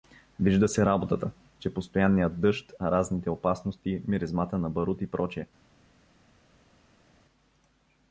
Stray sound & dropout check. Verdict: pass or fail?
pass